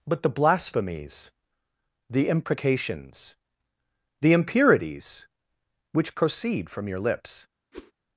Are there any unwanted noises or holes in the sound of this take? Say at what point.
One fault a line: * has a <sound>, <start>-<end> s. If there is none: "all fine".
* has a whoosh, 7.7-7.9 s